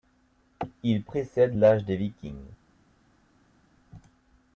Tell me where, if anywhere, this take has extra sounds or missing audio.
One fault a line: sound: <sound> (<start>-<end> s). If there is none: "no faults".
no faults